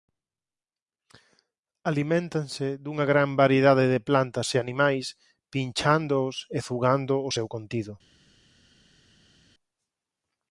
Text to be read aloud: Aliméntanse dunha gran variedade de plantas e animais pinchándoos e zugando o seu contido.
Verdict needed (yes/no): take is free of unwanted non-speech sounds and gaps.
yes